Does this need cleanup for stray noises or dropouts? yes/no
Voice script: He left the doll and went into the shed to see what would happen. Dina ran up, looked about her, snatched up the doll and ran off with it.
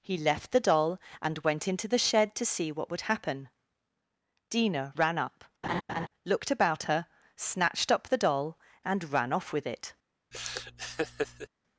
yes